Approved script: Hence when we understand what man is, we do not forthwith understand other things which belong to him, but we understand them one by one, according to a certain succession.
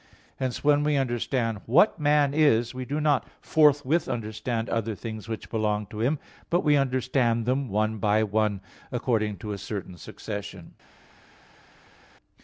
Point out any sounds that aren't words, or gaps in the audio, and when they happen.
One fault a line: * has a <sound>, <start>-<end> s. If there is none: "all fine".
all fine